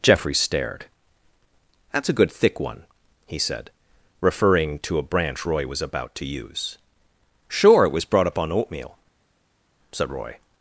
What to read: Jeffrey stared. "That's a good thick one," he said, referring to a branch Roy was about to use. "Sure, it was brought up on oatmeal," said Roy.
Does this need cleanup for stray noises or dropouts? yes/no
no